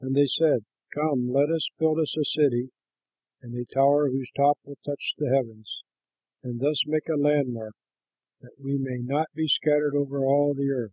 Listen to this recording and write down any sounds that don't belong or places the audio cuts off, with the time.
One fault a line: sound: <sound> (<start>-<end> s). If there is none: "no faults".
no faults